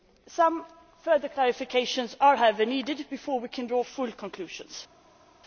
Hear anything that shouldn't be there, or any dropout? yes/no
no